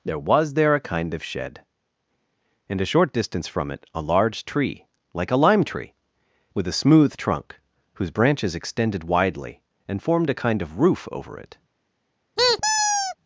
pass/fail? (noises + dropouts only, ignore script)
fail